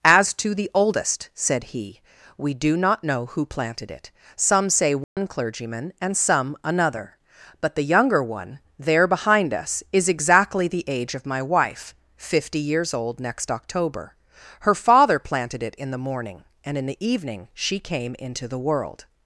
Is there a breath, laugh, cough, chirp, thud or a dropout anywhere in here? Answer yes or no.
yes